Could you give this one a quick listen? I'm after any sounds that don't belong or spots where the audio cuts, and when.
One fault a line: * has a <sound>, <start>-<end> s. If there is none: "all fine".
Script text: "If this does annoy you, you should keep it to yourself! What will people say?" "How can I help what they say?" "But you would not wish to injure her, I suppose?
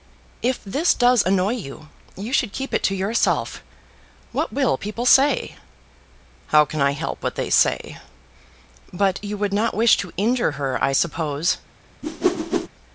* has a whoosh, 12.0-12.7 s